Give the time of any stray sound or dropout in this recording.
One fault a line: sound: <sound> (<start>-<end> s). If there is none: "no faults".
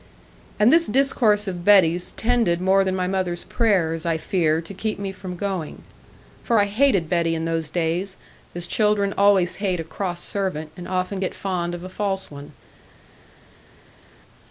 no faults